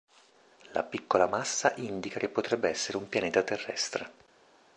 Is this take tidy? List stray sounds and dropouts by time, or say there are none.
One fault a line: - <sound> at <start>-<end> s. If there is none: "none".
none